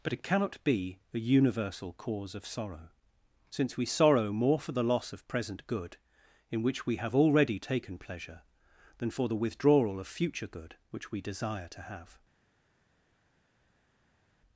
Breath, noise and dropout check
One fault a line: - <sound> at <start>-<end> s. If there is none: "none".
none